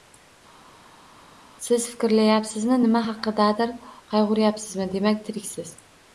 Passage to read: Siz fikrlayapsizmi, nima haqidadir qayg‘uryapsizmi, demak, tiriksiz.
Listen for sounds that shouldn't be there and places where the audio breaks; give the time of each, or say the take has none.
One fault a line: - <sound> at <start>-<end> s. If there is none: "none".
none